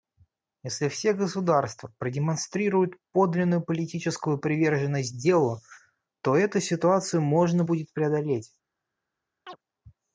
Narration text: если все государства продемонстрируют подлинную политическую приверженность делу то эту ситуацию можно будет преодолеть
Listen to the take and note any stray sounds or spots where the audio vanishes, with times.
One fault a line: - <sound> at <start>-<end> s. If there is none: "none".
- chirp at 9.5-9.6 s